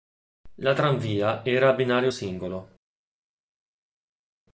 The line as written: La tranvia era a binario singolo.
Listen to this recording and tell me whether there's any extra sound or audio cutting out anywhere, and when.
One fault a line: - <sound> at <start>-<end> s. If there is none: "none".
none